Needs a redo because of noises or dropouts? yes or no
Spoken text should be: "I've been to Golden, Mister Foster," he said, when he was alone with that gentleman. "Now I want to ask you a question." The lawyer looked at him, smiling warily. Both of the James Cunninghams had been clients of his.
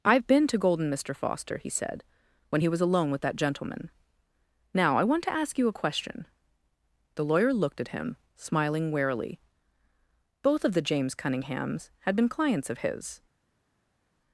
no